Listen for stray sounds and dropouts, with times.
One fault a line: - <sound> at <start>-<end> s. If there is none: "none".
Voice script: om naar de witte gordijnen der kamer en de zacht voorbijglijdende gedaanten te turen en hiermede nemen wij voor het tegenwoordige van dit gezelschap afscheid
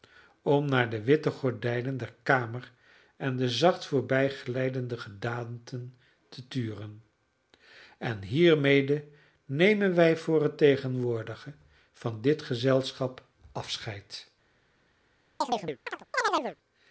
- chirp at 15.4-16.6 s